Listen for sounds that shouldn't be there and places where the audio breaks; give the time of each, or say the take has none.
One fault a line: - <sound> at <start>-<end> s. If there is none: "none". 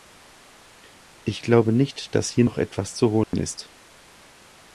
- dropout at 3.2-3.3 s